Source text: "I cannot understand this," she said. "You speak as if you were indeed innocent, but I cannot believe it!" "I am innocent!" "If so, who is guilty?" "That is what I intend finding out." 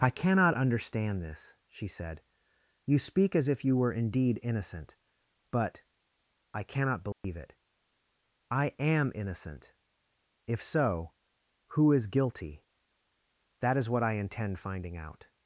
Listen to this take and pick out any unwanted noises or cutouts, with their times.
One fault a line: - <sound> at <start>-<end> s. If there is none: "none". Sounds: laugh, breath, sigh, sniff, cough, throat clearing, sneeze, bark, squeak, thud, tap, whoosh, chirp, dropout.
- dropout at 7.1-7.2 s